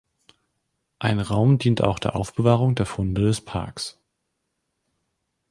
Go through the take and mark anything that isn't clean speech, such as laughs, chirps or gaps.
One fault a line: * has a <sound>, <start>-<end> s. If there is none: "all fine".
all fine